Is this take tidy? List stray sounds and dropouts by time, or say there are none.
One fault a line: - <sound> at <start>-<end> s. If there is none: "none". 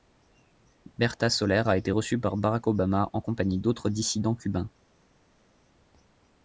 none